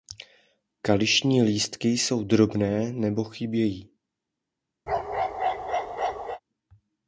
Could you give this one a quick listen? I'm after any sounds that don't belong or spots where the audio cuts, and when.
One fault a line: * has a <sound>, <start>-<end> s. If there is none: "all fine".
* has a bark, 4.9-6.4 s